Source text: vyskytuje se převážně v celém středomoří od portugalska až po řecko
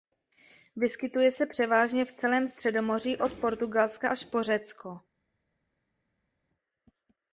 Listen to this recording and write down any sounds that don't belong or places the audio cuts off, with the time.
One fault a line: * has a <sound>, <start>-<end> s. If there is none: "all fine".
all fine